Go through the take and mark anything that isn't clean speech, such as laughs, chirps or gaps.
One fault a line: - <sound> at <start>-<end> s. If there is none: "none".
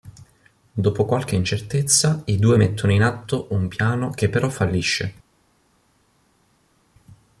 none